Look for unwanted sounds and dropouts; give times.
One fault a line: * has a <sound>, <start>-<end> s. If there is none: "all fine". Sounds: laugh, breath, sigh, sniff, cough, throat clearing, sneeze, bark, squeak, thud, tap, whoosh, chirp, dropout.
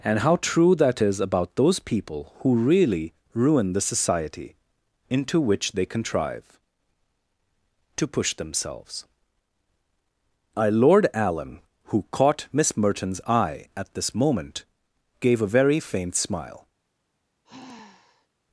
* has a sigh, 17.4-18.3 s